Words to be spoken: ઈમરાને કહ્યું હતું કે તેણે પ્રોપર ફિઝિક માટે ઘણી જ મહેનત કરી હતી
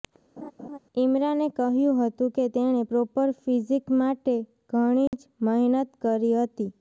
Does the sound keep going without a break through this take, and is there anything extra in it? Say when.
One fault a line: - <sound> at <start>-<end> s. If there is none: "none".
- laugh at 0.4-0.8 s
- dropout at 5.1-5.1 s